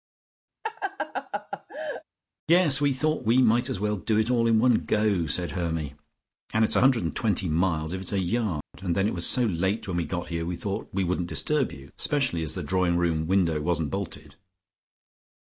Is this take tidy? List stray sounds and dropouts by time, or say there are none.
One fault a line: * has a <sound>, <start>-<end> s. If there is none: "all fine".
* has a laugh, 0.6-2.0 s
* has a dropout, 8.6-8.7 s